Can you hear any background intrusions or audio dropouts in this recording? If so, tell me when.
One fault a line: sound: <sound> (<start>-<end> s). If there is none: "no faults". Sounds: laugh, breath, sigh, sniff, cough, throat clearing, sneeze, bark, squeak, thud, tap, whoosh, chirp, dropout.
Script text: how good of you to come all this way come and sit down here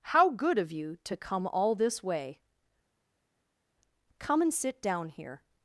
no faults